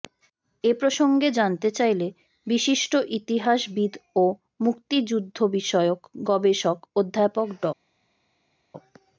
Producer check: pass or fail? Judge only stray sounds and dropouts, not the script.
pass